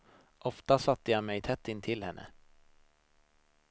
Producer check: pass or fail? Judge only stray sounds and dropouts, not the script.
pass